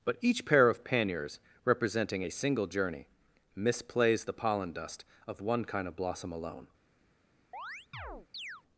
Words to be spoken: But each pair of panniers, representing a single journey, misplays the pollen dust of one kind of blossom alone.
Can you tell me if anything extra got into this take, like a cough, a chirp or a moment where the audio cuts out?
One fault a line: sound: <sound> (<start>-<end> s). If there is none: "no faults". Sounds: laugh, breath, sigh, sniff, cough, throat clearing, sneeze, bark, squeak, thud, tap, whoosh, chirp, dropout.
sound: chirp (7.5-8.6 s)